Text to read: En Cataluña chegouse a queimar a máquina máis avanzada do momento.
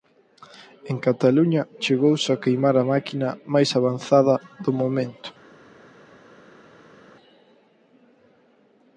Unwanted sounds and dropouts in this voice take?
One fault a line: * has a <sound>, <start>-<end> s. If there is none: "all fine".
all fine